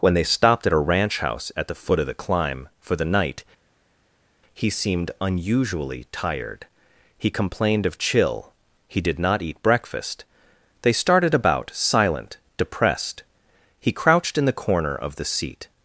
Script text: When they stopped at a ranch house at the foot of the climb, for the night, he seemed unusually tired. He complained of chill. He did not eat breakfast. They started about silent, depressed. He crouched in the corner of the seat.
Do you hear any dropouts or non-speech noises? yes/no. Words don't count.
no